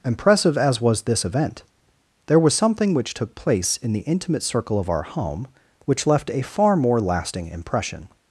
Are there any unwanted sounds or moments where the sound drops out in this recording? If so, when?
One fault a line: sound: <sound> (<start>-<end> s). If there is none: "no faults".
no faults